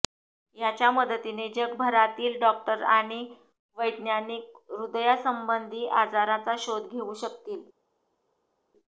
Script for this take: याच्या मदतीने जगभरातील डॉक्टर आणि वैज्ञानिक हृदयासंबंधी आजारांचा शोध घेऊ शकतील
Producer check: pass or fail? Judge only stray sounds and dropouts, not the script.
pass